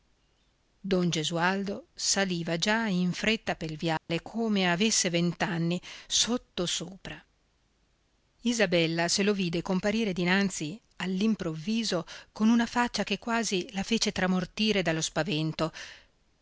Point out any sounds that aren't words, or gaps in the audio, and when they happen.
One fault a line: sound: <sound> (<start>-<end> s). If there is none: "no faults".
sound: dropout (4.0-4.1 s)